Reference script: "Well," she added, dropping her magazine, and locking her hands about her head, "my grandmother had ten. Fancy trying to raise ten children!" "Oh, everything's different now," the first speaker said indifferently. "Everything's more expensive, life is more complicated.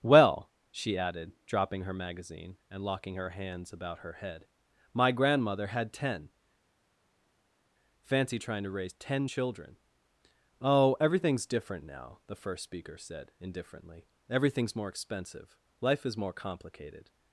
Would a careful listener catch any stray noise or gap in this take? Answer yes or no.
no